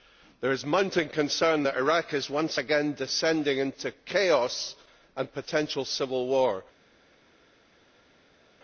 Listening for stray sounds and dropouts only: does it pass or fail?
pass